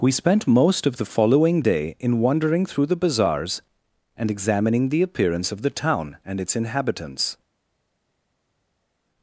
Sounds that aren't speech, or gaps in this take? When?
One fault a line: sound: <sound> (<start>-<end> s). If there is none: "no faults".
no faults